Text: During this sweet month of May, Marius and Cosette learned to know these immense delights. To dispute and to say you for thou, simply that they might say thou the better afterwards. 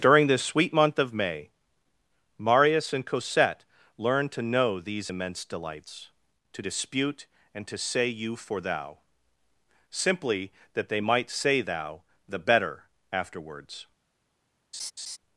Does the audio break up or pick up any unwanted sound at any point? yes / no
yes